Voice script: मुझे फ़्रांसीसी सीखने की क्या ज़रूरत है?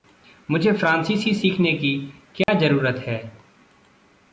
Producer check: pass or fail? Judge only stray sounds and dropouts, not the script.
fail